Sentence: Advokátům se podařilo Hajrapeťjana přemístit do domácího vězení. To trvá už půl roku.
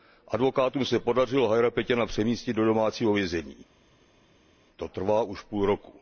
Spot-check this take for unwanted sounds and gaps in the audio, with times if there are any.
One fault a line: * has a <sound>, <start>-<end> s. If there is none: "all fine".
all fine